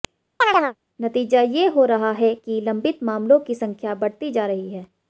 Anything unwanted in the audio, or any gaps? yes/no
yes